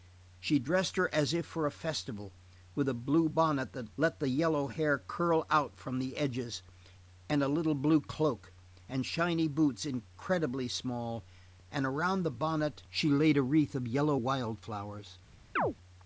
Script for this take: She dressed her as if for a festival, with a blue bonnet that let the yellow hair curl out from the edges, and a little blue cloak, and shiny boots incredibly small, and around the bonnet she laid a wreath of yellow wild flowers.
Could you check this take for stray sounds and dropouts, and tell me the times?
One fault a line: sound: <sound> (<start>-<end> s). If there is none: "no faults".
sound: chirp (15.6-15.7 s)